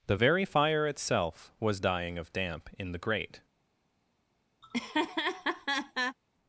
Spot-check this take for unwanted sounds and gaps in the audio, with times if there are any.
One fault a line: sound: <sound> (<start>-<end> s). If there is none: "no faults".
sound: laugh (4.6-6.2 s)